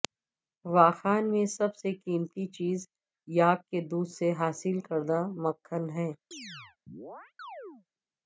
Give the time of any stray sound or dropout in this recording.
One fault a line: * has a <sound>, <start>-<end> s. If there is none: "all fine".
* has a chirp, 6.3-7.9 s